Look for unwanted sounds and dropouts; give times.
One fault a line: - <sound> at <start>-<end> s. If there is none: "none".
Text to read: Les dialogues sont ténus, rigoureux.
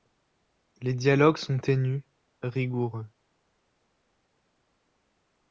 none